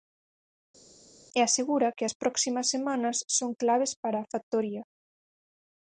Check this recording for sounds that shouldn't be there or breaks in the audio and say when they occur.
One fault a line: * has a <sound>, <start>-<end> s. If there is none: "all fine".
all fine